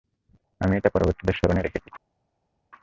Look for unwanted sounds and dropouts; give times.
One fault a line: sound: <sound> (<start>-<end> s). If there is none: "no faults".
no faults